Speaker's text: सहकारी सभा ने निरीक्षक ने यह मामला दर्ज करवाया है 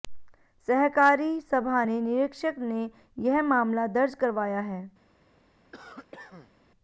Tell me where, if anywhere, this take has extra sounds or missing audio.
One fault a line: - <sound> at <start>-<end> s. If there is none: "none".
- cough at 5.7-6.5 s